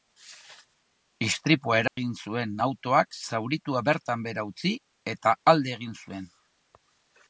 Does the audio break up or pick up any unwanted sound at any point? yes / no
yes